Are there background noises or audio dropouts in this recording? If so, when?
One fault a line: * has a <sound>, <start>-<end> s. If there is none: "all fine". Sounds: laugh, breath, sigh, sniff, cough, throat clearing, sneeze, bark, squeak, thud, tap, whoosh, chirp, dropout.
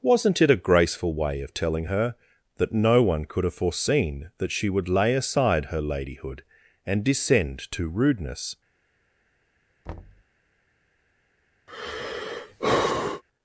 * has a thud, 9.9-10.2 s
* has a sigh, 11.7-13.2 s